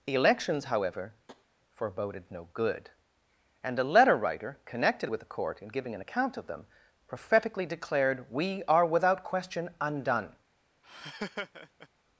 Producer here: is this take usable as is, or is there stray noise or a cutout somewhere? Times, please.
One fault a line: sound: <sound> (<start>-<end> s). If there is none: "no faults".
sound: tap (1.3-1.5 s)
sound: laugh (10.8-11.9 s)